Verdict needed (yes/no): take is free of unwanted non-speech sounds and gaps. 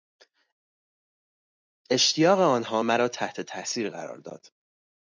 yes